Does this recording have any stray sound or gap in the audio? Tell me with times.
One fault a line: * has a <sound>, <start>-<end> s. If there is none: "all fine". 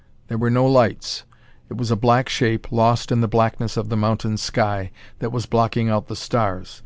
all fine